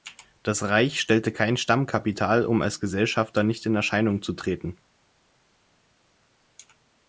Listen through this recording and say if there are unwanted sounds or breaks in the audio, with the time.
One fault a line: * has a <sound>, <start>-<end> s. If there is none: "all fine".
all fine